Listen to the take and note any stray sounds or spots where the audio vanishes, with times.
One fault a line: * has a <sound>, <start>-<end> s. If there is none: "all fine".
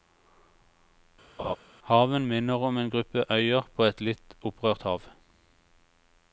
* has a laugh, 1.4-1.6 s